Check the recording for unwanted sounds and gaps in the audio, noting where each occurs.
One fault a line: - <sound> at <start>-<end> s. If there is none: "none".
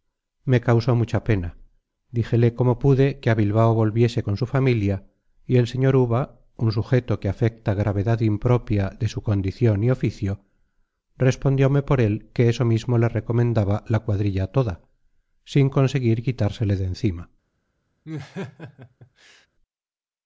- laugh at 18.0-19.5 s